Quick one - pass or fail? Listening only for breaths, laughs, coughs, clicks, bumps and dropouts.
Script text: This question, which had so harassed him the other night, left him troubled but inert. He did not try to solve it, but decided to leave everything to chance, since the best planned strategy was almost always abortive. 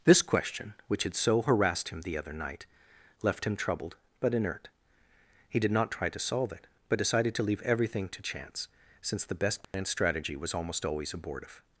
fail